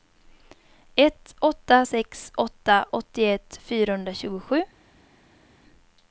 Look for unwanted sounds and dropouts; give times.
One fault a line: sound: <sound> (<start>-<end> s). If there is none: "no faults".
no faults